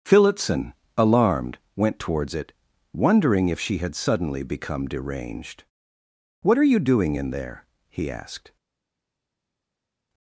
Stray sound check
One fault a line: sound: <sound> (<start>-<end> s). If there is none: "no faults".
no faults